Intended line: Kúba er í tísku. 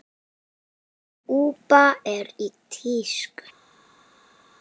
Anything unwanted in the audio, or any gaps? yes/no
no